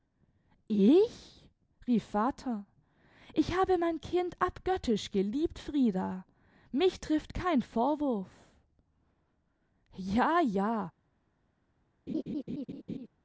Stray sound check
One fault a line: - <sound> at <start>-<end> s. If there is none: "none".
- laugh at 12.1-13.1 s